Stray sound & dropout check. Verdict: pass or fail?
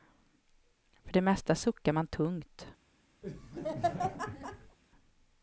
fail